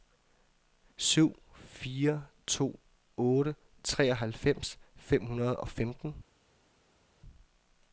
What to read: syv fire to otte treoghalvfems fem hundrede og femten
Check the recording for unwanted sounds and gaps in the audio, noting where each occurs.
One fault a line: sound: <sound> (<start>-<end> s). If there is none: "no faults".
no faults